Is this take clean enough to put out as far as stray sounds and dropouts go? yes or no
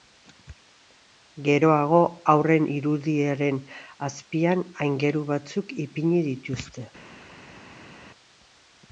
yes